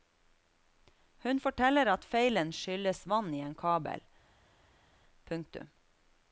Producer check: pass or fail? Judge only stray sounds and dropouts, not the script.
pass